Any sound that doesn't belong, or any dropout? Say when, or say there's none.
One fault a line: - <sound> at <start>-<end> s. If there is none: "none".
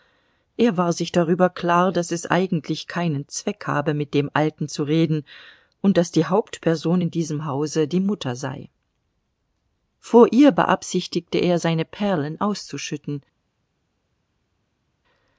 none